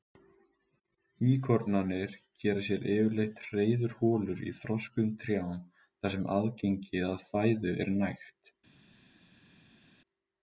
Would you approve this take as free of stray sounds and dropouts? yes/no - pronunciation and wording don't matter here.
yes